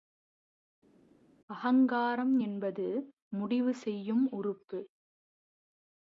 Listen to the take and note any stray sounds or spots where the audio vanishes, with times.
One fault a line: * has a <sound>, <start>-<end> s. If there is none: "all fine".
all fine